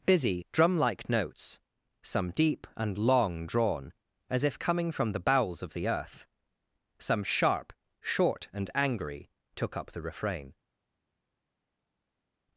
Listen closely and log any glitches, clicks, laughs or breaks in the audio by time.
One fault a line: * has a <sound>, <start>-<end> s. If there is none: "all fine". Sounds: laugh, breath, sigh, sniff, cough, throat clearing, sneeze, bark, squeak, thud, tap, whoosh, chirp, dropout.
all fine